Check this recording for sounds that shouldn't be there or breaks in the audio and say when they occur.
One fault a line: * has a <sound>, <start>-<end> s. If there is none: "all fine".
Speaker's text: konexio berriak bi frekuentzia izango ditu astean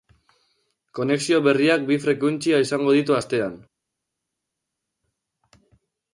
all fine